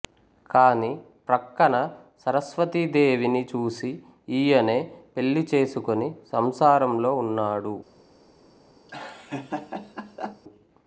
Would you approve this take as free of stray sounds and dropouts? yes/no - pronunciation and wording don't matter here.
no